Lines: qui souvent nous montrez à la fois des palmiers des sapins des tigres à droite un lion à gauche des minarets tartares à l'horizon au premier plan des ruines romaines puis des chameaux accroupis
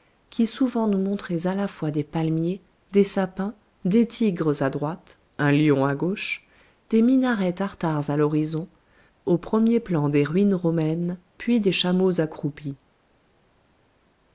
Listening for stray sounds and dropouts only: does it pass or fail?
pass